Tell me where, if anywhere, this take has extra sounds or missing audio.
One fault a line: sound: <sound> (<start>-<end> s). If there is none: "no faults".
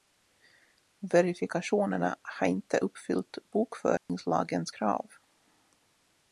sound: dropout (4.0-4.1 s)